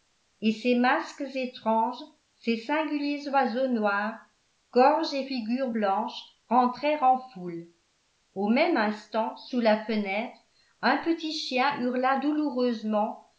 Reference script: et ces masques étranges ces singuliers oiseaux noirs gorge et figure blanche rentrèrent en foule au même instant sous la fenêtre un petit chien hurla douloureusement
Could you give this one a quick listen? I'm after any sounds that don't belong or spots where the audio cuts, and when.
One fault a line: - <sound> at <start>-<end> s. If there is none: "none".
none